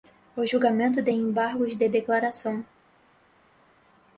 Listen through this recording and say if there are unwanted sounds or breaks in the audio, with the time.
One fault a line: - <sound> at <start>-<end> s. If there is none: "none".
none